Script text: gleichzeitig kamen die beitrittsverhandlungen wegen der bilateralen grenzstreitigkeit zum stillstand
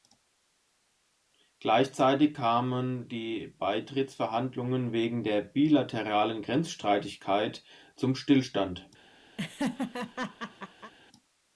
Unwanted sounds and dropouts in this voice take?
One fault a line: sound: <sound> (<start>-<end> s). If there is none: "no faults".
sound: laugh (9.4-10.9 s)